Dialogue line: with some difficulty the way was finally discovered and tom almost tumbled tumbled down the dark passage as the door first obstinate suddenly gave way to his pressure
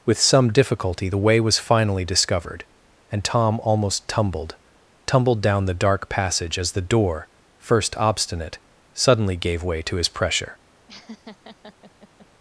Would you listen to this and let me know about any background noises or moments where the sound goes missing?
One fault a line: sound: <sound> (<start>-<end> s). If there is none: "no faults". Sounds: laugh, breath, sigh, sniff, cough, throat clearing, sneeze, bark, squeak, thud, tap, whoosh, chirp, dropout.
sound: laugh (10.9-12.3 s)